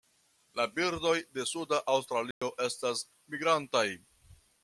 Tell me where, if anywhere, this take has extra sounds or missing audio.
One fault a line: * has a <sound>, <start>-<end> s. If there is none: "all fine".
* has a dropout, 2.3-2.4 s